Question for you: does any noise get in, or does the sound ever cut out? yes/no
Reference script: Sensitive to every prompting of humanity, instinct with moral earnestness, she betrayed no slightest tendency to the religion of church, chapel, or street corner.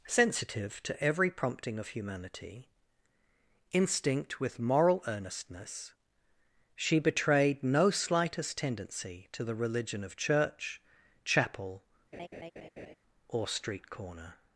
yes